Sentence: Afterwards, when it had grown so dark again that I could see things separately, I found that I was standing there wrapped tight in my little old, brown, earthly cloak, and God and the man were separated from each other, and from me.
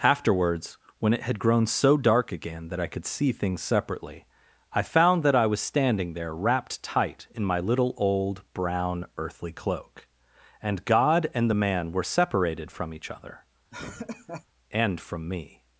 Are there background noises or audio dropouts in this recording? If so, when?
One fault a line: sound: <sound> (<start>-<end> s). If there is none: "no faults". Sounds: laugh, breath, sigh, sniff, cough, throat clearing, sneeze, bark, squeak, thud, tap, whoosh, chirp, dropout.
sound: laugh (13.7-14.5 s)